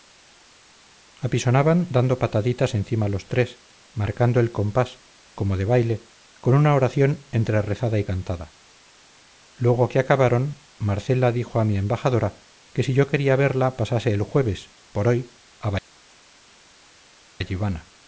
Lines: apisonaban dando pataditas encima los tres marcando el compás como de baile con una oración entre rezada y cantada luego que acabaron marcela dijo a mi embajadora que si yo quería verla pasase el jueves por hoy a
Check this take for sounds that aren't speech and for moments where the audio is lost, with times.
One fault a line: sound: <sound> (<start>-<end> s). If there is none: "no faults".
no faults